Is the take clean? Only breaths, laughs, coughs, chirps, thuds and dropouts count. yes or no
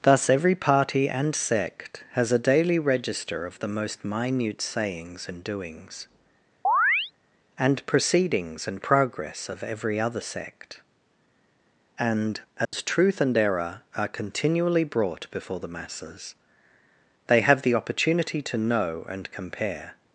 no